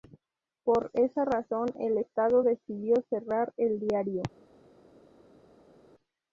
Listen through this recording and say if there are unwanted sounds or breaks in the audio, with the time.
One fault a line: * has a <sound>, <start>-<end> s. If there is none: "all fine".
all fine